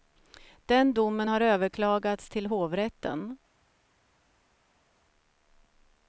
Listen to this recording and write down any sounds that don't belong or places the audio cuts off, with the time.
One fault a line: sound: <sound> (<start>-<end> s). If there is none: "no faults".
no faults